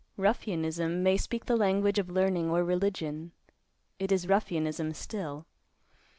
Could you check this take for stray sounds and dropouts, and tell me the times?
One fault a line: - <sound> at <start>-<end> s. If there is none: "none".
none